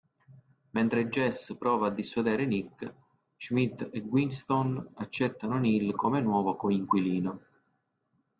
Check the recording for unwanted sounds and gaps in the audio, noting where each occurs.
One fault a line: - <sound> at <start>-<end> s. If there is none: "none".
none